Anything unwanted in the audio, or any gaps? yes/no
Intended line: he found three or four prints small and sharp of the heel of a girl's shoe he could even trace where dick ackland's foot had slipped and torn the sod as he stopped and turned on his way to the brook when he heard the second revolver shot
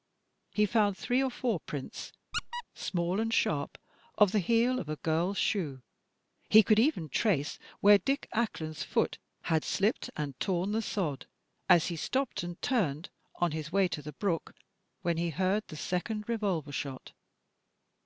yes